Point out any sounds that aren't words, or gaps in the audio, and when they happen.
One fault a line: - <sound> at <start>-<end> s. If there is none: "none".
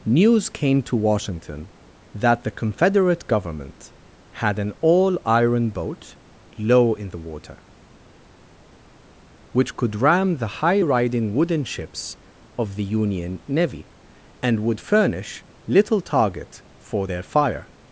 none